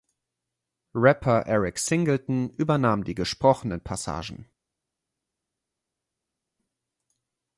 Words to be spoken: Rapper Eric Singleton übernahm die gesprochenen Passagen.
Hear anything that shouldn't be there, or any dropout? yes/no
no